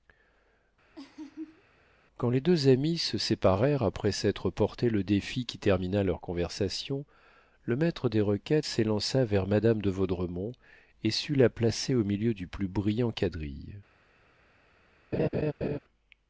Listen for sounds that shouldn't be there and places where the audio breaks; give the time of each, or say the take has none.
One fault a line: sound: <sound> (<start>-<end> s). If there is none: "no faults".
sound: laugh (1.0-1.6 s)
sound: laugh (15.1-15.8 s)